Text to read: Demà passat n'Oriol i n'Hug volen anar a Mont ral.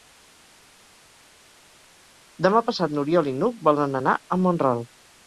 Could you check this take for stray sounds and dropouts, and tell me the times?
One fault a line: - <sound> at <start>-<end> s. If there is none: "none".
none